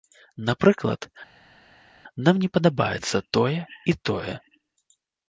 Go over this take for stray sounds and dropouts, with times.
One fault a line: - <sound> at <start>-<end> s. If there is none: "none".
none